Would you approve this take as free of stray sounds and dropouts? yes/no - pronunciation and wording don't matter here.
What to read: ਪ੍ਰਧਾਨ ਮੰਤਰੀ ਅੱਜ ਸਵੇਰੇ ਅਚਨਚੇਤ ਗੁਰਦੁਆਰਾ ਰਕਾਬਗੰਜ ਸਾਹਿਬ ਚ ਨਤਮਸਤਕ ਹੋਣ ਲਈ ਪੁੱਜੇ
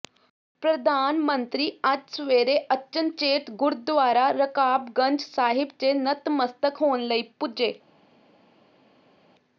yes